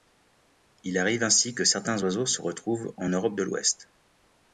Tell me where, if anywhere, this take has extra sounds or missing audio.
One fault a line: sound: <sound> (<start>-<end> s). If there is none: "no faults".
no faults